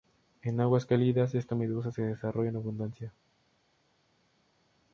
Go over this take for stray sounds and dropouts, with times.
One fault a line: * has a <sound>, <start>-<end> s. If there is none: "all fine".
all fine